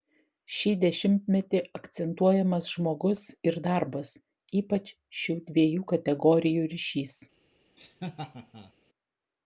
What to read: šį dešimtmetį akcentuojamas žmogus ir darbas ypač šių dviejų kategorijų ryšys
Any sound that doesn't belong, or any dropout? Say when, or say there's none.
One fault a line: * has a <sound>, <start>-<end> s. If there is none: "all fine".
* has a laugh, 7.8-8.7 s